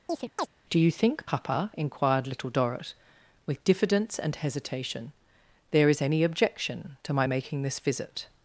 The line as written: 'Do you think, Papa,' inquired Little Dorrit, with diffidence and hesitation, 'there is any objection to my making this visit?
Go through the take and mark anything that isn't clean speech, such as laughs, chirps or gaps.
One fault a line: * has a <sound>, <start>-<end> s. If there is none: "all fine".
* has a chirp, 0.1-0.5 s